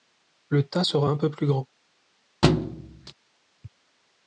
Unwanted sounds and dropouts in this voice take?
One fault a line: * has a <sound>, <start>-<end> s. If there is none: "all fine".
* has a thud, 2.4-3.1 s